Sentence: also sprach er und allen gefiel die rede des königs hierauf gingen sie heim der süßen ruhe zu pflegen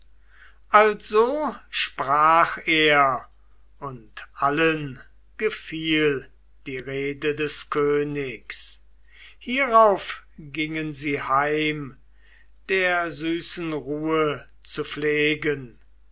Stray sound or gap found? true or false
false